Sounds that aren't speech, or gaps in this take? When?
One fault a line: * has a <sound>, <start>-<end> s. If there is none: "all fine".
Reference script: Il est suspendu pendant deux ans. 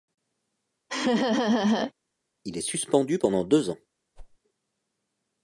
* has a laugh, 0.9-1.9 s
* has a whoosh, 4.2-4.4 s